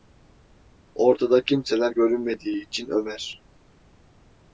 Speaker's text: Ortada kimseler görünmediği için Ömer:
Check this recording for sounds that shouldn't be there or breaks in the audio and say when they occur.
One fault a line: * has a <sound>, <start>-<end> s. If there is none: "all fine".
all fine